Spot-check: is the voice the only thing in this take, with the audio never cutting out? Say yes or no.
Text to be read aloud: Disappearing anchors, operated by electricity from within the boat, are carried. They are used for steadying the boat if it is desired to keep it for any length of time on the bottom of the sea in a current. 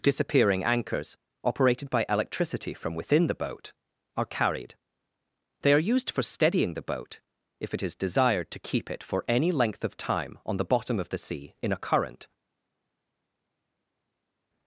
yes